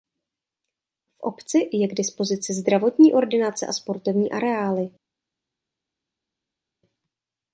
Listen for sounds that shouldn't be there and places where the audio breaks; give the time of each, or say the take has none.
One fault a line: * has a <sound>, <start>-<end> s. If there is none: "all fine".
all fine